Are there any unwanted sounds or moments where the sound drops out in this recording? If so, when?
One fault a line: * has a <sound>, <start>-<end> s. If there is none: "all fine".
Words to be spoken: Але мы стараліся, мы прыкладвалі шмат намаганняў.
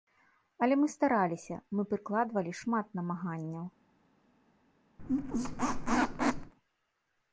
* has a squeak, 5.0-6.5 s